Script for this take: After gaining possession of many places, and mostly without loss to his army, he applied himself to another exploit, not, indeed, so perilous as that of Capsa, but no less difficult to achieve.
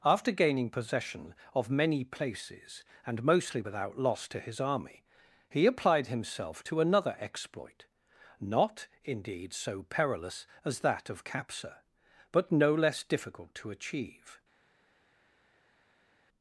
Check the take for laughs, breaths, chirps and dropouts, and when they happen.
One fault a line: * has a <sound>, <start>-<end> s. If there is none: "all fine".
all fine